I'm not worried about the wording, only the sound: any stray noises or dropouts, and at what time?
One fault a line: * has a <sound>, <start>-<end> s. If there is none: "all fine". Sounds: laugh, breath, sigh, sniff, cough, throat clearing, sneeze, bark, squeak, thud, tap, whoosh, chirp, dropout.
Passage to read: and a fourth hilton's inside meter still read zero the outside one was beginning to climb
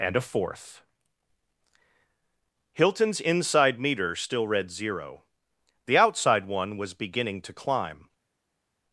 all fine